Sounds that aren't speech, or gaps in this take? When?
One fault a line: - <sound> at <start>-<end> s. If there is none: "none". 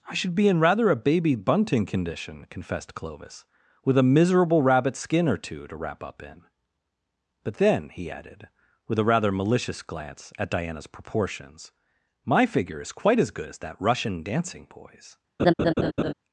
- laugh at 15.4-16.1 s